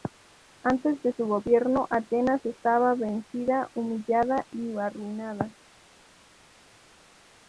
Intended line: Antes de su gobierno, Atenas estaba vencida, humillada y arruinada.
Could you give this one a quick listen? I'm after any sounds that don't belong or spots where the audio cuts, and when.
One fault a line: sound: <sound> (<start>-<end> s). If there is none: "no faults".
no faults